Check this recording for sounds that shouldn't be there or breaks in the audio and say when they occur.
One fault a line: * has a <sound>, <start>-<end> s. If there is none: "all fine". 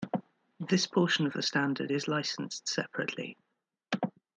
all fine